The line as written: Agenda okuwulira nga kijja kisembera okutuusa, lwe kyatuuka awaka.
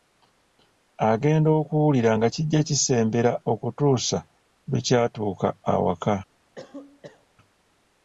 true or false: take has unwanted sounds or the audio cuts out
true